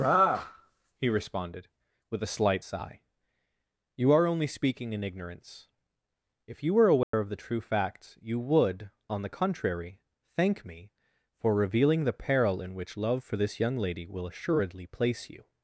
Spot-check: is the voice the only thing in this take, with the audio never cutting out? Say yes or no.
no